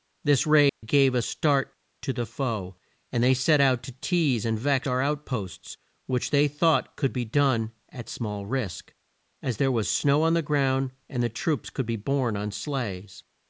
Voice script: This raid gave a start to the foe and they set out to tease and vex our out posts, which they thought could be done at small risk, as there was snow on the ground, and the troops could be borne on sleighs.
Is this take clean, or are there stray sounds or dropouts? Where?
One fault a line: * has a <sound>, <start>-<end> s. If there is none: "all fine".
* has a dropout, 0.7-0.8 s